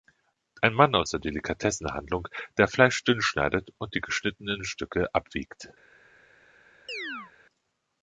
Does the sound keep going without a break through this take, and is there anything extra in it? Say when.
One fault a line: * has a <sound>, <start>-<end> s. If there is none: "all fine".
* has a chirp, 6.9-7.3 s